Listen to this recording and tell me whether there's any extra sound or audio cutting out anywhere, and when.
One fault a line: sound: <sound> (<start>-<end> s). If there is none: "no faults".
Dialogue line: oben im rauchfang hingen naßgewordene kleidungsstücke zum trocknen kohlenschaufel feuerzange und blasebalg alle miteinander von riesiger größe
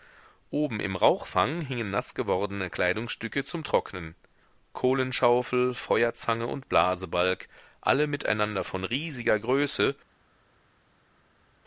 no faults